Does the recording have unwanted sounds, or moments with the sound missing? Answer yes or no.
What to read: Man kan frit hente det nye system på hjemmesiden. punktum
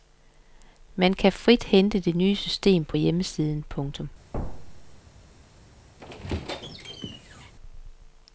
yes